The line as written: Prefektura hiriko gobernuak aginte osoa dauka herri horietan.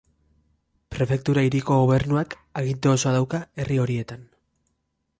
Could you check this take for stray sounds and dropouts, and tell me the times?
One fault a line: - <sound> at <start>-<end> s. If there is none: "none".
none